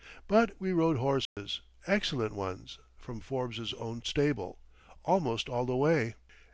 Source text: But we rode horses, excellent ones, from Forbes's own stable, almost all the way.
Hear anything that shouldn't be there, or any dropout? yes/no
yes